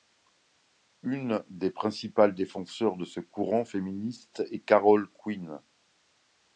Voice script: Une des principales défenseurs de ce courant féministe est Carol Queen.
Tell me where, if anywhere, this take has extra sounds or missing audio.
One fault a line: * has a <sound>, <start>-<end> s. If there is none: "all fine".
all fine